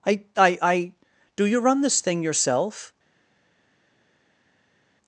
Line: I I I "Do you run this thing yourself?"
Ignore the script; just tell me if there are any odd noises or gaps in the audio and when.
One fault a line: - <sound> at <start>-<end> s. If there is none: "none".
none